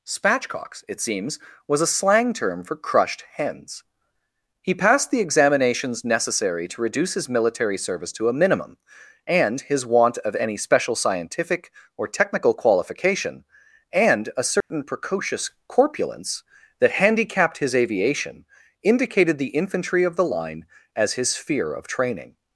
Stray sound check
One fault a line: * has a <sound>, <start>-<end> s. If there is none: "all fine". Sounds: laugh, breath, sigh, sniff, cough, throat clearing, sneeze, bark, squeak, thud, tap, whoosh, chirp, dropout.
* has a dropout, 14.6-14.7 s